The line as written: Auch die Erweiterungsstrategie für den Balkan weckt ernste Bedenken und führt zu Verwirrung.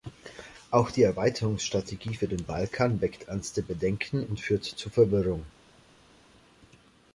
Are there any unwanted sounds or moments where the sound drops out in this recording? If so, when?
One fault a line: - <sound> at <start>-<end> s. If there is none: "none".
none